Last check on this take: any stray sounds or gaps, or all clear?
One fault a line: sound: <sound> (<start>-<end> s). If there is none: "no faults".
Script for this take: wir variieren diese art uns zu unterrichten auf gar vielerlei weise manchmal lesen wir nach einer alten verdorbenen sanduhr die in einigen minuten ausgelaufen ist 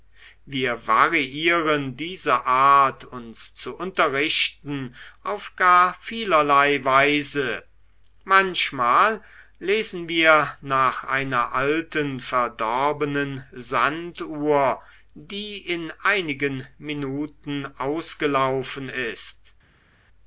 no faults